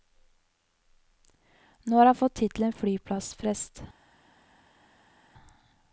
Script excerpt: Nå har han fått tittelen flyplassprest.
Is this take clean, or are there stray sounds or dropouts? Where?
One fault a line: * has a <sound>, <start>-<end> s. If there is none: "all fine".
all fine